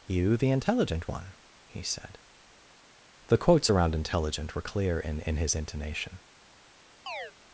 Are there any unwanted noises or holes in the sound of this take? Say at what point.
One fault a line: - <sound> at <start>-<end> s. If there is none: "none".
- chirp at 7.1-7.3 s